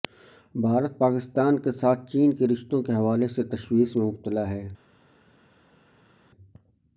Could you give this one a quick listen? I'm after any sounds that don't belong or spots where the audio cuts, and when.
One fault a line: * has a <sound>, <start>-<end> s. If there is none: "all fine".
all fine